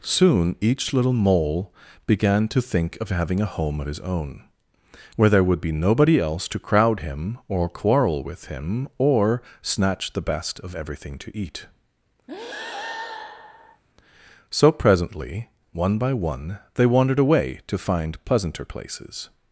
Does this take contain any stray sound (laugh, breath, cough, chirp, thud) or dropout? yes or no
yes